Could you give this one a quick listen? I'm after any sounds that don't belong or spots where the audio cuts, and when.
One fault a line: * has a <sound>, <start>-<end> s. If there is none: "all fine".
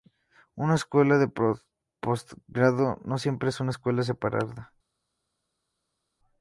all fine